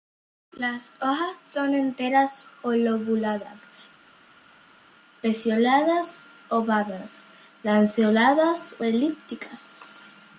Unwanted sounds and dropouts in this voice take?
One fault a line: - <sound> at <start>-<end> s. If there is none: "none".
none